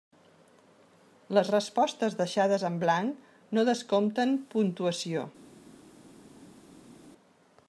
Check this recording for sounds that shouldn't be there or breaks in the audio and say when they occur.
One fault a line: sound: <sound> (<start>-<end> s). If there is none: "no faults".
no faults